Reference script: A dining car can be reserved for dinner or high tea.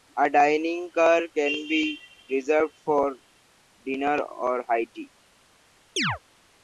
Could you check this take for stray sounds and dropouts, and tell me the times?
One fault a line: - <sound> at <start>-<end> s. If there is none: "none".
- chirp at 6.0-6.2 s